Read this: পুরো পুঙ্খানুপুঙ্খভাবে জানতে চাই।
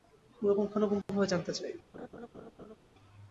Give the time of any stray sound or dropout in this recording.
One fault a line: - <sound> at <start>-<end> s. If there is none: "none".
- dropout at 1.0-1.1 s
- laugh at 1.9-2.8 s